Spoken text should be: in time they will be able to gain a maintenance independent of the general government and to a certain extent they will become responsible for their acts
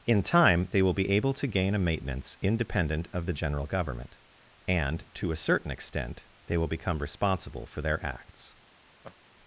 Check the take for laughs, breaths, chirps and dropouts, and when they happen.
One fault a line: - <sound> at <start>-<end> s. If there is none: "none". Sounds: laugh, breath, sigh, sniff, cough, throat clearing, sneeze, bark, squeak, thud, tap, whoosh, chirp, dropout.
- laugh at 9.0-9.2 s